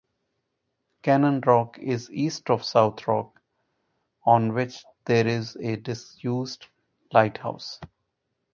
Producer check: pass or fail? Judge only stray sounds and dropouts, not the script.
pass